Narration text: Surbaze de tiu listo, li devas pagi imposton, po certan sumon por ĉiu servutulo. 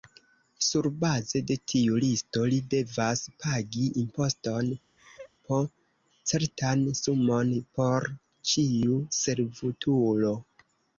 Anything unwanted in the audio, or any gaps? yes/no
yes